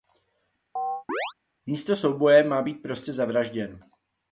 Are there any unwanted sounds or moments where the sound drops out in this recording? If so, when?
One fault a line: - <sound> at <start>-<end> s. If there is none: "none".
- chirp at 0.8-1.3 s